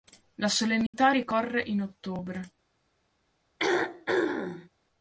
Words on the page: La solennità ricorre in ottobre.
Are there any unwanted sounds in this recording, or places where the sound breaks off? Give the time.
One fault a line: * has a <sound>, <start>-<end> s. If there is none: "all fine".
* has a dropout, 0.9-0.9 s
* has a throat clearing, 3.6-4.7 s